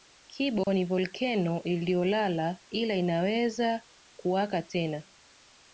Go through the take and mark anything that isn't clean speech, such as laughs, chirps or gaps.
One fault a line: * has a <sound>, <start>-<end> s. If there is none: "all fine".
* has a dropout, 0.6-0.7 s